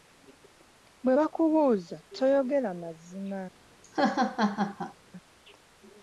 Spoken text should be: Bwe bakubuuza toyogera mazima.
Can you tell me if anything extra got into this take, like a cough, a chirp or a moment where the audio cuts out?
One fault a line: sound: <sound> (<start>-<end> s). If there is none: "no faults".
sound: laugh (3.8-4.9 s)